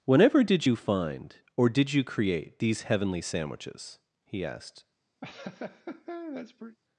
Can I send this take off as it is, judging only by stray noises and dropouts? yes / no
no